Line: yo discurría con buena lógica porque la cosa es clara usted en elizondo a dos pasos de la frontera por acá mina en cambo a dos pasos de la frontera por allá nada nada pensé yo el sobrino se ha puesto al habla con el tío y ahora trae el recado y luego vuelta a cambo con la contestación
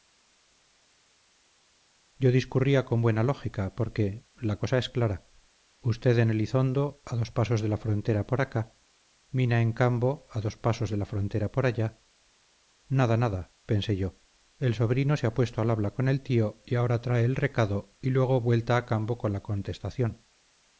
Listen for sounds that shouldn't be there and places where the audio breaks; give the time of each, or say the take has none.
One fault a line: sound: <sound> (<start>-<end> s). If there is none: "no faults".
no faults